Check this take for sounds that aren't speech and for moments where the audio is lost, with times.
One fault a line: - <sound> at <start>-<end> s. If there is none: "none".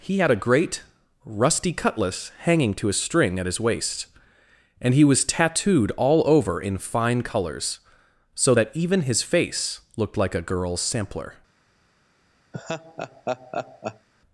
- laugh at 12.5-14.1 s